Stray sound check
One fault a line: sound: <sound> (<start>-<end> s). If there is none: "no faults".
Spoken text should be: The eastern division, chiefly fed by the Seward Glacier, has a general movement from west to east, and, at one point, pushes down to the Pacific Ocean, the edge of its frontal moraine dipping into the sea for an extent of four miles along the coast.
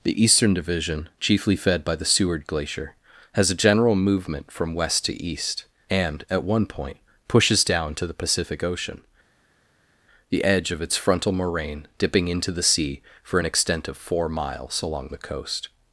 no faults